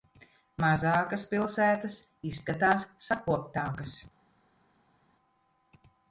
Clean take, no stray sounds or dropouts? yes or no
yes